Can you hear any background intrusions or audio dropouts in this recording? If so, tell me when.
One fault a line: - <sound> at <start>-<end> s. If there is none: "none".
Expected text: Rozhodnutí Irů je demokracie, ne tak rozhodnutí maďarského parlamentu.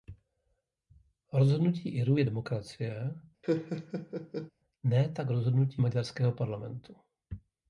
- laugh at 3.4-4.5 s